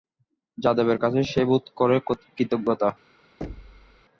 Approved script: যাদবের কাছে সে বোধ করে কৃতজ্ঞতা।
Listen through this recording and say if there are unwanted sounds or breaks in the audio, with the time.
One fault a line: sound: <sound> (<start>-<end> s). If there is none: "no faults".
sound: thud (3.4-4.1 s)